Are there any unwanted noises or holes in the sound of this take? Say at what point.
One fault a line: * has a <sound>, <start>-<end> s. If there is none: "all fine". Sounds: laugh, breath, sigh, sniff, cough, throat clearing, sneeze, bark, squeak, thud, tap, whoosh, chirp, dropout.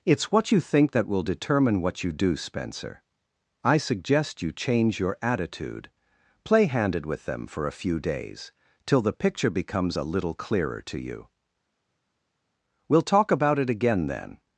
all fine